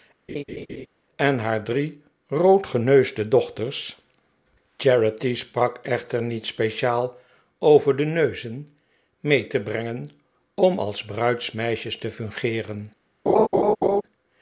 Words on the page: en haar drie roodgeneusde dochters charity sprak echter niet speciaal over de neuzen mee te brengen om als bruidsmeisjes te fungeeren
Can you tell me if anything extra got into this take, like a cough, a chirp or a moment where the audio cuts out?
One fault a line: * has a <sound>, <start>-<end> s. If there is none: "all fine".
* has a laugh, 0.3-0.9 s
* has a laugh, 13.3-14.0 s